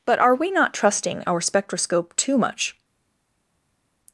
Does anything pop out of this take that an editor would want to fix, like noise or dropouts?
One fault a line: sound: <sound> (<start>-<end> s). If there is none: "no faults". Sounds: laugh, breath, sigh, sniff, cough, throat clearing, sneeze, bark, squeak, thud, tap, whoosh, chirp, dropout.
no faults